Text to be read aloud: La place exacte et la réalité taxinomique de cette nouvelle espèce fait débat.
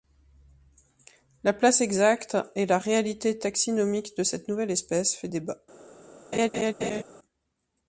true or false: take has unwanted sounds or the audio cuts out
true